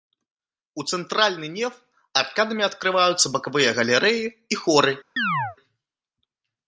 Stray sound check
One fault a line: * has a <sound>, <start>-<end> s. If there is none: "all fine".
* has a chirp, 5.2-5.6 s